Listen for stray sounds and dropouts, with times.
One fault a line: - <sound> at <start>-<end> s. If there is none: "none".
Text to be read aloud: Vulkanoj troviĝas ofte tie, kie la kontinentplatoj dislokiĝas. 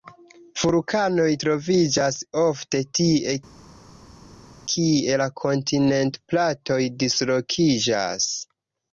none